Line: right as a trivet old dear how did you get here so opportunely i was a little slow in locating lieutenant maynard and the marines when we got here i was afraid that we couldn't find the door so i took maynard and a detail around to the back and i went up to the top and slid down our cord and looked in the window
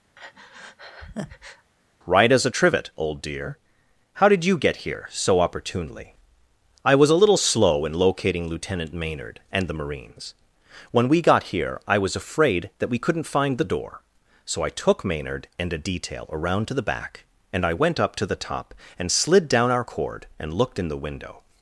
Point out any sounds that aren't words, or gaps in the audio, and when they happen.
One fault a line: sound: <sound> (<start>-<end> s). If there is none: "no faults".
sound: breath (0.2-1.7 s)